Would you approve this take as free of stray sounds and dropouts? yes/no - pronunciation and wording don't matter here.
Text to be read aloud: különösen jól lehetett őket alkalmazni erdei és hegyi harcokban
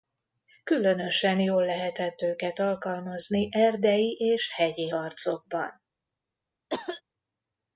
no